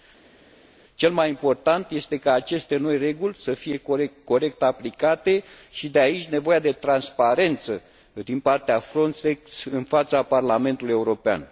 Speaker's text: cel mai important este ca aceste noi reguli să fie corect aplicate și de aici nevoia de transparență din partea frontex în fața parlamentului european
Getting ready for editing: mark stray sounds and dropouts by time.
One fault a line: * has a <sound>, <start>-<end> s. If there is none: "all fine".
all fine